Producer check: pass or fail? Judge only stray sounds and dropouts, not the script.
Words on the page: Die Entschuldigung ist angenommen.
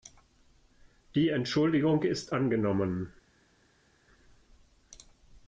pass